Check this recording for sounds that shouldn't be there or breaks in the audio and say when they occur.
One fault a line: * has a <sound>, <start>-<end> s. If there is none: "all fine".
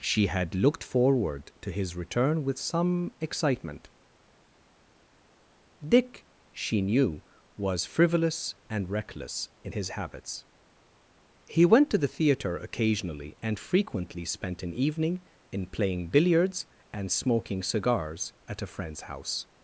all fine